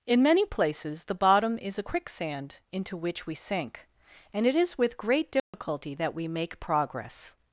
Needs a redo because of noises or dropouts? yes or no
yes